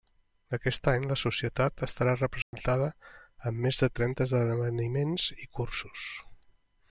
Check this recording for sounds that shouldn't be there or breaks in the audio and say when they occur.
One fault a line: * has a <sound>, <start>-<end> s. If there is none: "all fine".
* has a dropout, 2.4-2.5 s